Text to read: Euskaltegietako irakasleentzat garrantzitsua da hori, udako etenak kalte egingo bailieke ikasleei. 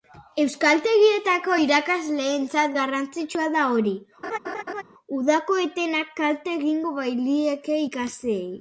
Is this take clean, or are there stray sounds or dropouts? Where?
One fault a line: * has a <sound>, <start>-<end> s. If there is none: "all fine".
* has a laugh, 4.2-4.8 s